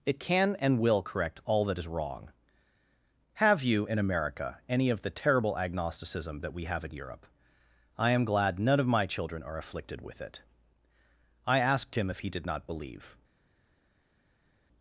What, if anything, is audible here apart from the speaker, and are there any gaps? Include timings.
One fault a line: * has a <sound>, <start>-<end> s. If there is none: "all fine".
all fine